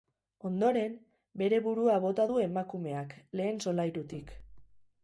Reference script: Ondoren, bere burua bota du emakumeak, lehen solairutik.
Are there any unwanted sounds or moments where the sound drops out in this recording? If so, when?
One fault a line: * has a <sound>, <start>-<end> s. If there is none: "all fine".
all fine